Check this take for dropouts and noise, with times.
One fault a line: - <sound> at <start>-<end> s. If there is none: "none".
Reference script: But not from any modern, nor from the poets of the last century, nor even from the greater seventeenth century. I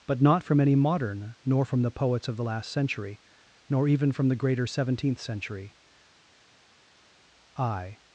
none